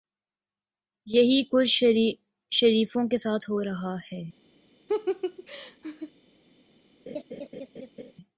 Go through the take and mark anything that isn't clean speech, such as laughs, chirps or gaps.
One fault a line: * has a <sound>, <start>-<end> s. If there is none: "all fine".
* has a laugh, 4.9-6.1 s
* has a laugh, 7.1-8.1 s